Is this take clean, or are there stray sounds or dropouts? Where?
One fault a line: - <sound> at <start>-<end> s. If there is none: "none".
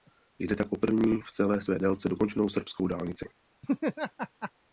- laugh at 3.6-4.5 s